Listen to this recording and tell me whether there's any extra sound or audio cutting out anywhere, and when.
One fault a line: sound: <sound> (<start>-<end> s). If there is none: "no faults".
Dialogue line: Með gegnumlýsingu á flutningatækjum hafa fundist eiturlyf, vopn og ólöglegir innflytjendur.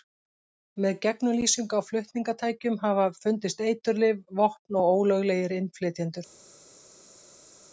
no faults